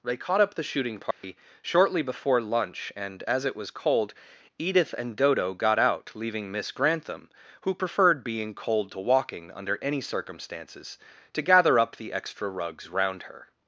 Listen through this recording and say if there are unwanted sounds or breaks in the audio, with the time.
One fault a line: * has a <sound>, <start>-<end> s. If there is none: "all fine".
* has a dropout, 1.1-1.2 s